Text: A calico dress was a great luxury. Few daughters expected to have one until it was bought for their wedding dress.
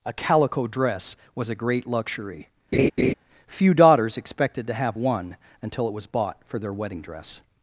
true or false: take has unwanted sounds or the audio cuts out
true